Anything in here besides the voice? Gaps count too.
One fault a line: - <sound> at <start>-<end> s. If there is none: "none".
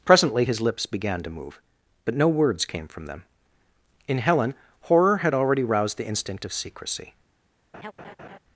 - laugh at 7.7-8.4 s